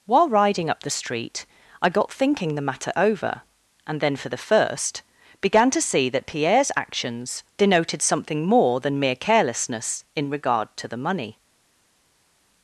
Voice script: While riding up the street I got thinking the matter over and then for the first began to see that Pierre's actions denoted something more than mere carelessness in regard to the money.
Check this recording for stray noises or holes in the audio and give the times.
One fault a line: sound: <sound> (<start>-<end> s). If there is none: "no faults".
no faults